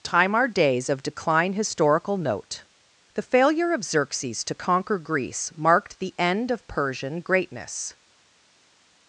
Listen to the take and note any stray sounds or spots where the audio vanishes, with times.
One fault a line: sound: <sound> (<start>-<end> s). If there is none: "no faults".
no faults